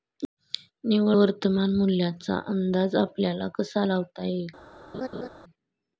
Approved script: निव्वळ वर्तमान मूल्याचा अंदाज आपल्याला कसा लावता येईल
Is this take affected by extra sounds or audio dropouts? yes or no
yes